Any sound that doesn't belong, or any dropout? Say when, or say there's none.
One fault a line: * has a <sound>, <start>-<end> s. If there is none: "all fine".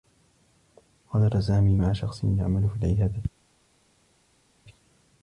all fine